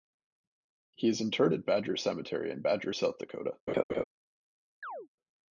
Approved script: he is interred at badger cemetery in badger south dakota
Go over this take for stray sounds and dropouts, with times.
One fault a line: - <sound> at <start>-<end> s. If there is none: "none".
- laugh at 3.7-4.0 s
- chirp at 4.8-5.1 s